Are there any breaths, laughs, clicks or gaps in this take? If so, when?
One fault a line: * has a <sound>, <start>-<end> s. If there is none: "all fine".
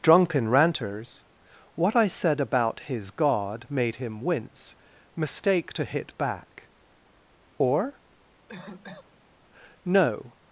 * has a cough, 8.5-9.2 s